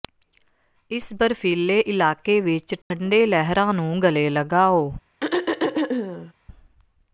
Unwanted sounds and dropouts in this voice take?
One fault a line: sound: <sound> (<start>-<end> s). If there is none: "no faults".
sound: dropout (2.8-2.9 s)
sound: throat clearing (5.2-6.3 s)